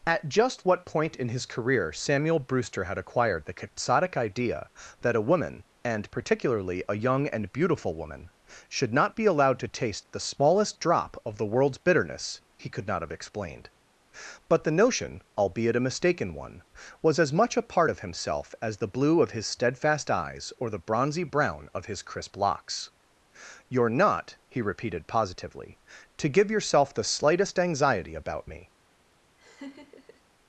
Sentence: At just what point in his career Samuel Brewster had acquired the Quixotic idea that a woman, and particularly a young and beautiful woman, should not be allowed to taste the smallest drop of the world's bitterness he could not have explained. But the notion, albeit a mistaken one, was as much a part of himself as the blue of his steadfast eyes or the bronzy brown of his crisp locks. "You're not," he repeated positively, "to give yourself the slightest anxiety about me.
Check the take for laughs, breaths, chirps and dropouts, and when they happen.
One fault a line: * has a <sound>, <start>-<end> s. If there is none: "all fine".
* has a laugh, 29.4-30.2 s